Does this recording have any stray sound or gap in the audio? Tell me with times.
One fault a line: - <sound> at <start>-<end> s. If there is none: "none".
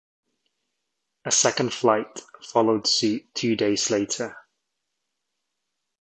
none